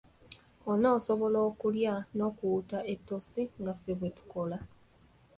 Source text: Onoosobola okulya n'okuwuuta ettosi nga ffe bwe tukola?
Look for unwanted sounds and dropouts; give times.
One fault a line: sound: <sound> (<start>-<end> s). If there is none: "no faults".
no faults